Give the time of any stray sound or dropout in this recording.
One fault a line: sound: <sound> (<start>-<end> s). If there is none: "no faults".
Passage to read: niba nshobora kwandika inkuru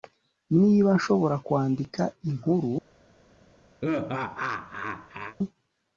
sound: laugh (3.8-5.4 s)